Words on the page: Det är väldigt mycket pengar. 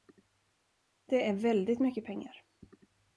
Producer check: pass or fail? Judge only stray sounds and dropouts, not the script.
pass